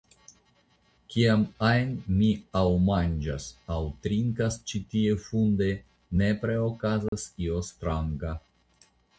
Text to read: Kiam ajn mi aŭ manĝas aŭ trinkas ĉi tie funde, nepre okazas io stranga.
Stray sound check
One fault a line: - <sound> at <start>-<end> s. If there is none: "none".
- dropout at 7.1-7.1 s